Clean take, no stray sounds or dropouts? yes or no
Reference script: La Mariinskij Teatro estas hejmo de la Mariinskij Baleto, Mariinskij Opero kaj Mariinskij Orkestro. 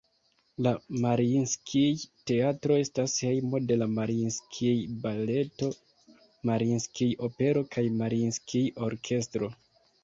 yes